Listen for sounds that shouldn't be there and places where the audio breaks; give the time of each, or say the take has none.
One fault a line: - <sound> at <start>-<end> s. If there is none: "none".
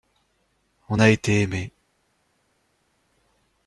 none